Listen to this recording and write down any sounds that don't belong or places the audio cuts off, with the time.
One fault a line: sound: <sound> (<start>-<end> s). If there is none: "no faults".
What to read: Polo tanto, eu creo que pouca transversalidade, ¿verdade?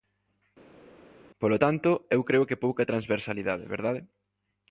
no faults